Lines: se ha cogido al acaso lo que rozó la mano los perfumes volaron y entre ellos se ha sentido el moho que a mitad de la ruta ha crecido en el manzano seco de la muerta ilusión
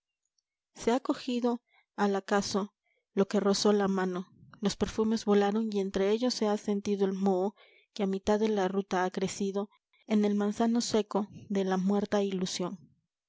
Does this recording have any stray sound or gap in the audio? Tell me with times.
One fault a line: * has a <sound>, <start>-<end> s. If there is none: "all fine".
all fine